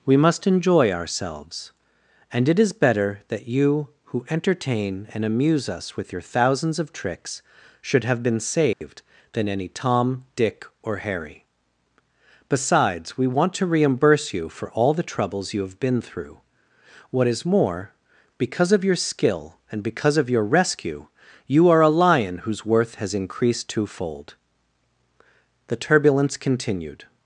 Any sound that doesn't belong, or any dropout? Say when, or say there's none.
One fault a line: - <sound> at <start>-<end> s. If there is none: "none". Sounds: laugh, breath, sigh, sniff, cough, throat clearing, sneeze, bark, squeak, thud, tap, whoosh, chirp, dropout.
- dropout at 8.7-8.8 s